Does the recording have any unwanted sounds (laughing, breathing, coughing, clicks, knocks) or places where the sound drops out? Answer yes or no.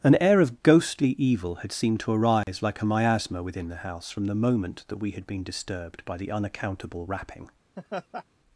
yes